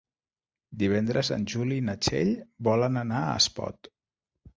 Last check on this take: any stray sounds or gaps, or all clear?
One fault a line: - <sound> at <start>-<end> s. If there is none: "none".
none